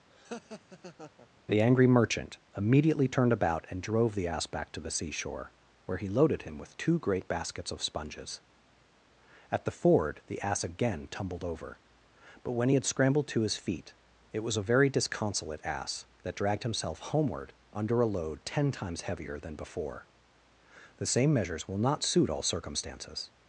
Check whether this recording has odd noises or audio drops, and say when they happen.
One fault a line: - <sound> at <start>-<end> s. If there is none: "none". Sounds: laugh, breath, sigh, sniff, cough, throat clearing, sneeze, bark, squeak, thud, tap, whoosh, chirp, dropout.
- laugh at 0.1-1.3 s